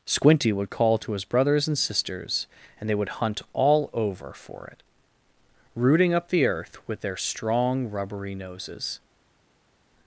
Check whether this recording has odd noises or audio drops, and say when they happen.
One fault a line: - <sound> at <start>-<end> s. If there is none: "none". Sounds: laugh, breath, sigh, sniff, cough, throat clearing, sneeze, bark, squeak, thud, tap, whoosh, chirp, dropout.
none